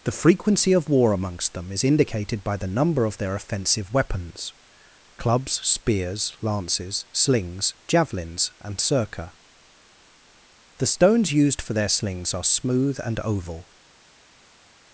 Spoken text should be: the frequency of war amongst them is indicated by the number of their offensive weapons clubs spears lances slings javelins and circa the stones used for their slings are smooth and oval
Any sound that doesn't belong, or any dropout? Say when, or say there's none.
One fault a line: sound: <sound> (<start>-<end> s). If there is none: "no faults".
no faults